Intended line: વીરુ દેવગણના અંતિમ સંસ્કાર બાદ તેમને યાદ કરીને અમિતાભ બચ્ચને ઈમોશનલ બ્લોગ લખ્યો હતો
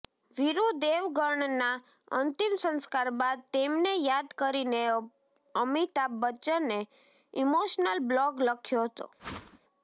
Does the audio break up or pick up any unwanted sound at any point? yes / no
yes